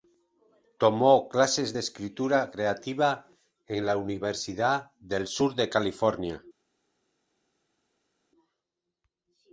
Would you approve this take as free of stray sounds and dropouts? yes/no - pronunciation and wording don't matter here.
yes